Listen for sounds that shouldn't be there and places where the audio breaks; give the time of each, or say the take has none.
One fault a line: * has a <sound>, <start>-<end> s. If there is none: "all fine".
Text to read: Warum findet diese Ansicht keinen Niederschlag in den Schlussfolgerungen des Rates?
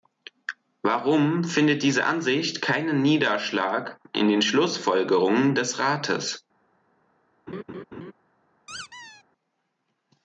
* has a laugh, 7.5-8.1 s
* has a squeak, 8.7-9.2 s